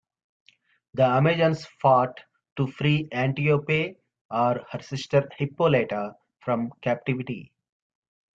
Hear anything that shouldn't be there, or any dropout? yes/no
no